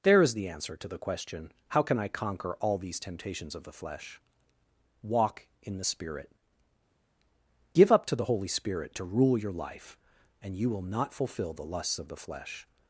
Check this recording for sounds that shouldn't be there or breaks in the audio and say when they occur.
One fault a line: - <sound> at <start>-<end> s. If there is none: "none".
none